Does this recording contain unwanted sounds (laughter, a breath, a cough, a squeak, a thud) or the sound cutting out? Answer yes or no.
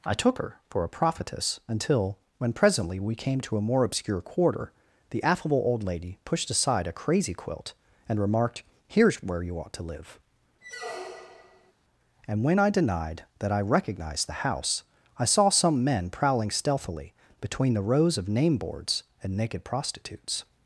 yes